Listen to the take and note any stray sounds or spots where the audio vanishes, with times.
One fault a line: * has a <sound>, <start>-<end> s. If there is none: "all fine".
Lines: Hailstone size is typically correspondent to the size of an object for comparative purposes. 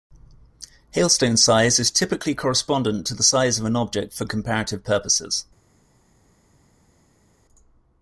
all fine